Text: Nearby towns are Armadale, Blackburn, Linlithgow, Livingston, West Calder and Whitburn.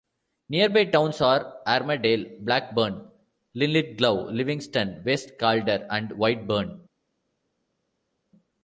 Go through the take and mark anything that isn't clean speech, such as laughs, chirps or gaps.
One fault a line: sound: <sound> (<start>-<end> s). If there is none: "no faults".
no faults